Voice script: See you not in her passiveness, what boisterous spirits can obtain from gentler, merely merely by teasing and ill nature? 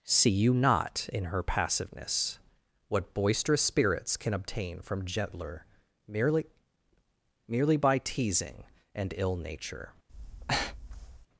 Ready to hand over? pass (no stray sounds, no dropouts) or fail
fail